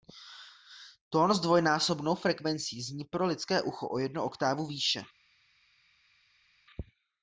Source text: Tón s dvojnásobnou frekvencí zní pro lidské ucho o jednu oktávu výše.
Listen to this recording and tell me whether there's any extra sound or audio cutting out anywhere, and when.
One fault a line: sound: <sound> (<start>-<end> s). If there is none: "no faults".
no faults